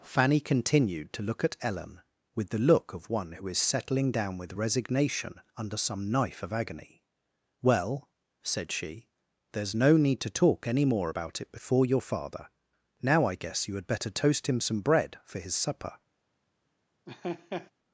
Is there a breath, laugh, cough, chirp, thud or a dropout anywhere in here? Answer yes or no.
yes